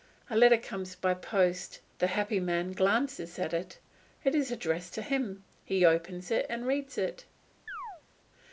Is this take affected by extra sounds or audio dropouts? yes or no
yes